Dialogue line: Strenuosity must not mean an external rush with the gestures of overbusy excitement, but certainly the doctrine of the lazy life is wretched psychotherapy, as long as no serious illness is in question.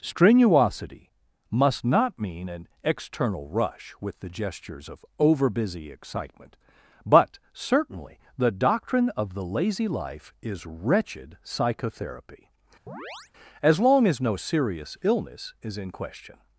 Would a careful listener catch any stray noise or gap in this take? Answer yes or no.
yes